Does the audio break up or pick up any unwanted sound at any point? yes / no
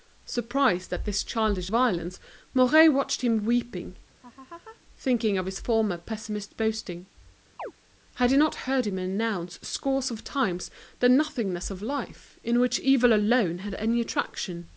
yes